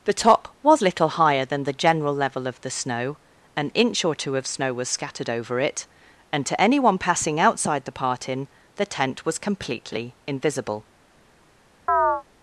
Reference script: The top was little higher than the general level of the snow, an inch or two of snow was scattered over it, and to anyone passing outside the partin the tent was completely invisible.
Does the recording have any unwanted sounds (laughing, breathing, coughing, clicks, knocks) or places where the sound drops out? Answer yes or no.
yes